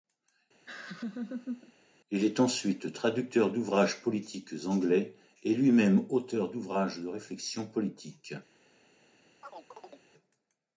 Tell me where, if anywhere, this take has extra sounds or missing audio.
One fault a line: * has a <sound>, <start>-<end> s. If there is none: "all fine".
* has a laugh, 0.7-1.7 s
* has a chirp, 9.4-10.0 s